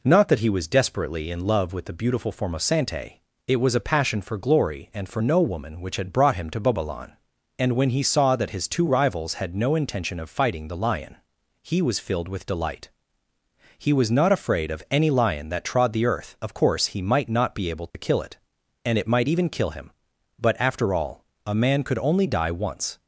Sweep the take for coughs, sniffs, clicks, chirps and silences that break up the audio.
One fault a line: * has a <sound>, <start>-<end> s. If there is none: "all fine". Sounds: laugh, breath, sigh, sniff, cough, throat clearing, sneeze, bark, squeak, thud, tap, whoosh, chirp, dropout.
* has a dropout, 17.9-17.9 s